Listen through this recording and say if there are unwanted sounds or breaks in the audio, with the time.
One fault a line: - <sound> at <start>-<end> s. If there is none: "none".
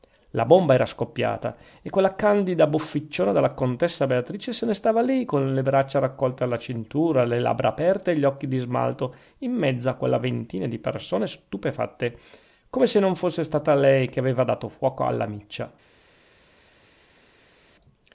none